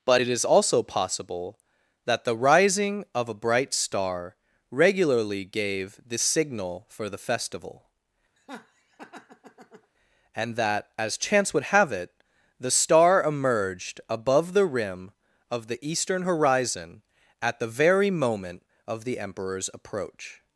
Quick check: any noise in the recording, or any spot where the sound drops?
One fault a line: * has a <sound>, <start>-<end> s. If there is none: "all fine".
* has a laugh, 8.4-9.9 s